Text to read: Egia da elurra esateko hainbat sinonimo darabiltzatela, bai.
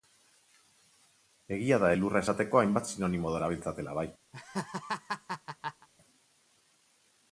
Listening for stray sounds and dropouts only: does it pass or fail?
fail